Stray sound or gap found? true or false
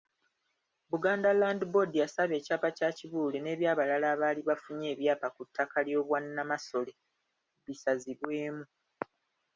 false